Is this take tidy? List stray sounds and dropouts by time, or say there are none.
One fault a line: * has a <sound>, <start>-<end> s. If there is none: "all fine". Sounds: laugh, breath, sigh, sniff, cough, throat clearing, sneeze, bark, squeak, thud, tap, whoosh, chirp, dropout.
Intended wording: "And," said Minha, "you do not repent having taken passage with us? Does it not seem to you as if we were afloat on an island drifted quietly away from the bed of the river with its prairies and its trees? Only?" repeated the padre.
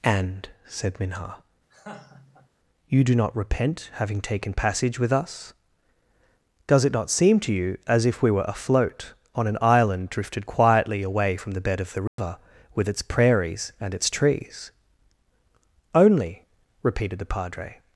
* has a laugh, 1.7-2.5 s
* has a dropout, 12.1-12.2 s